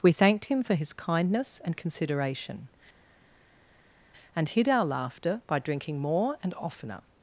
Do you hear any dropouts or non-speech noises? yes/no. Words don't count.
no